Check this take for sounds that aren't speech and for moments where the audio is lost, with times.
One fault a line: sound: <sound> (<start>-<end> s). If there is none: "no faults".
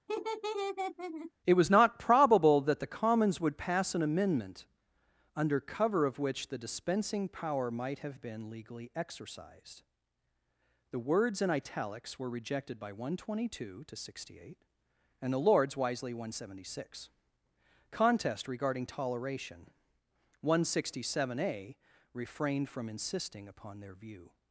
sound: laugh (0.1-1.3 s)